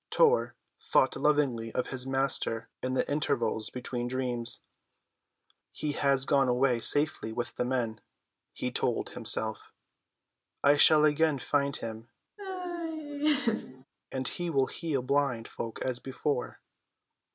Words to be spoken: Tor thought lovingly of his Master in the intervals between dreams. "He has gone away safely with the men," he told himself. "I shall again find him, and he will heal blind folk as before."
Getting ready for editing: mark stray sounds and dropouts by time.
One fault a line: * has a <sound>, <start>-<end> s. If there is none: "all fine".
* has a laugh, 12.4-13.8 s